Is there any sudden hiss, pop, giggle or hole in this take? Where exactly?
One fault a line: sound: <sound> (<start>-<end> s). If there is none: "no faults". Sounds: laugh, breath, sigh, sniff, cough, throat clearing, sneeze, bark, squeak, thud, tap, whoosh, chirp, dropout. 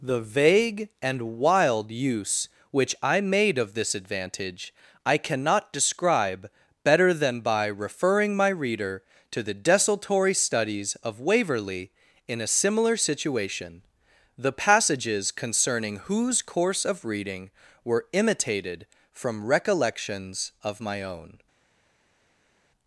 no faults